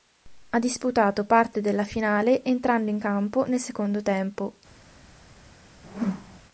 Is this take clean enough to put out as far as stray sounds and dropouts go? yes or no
no